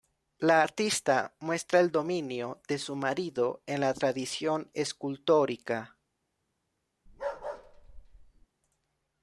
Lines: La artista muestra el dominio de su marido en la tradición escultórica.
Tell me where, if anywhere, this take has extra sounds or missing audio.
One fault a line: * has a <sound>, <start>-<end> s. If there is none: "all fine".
* has a bark, 7.1-8.5 s